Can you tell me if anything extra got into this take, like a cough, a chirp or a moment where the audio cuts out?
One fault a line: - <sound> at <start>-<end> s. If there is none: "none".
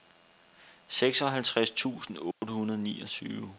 - dropout at 2.3-2.4 s